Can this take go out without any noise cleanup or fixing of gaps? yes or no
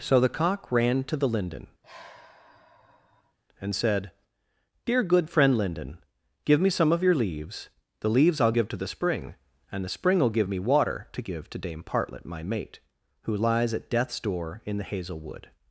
no